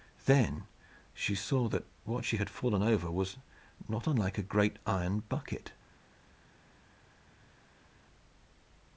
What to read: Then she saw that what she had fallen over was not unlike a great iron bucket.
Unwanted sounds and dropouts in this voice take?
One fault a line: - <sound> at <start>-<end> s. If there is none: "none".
none